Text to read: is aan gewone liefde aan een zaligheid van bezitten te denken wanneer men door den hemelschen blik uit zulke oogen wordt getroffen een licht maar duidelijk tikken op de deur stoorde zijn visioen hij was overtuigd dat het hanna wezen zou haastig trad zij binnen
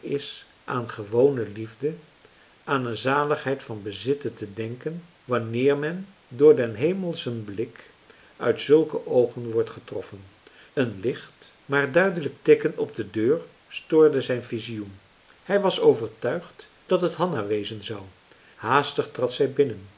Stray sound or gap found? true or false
false